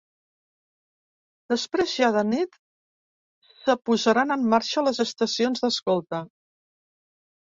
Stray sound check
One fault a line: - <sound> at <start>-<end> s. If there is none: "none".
none